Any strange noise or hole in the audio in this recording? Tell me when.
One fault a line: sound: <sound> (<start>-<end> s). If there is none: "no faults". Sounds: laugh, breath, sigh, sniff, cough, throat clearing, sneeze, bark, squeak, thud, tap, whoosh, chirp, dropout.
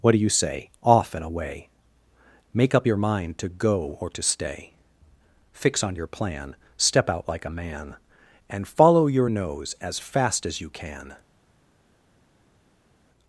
no faults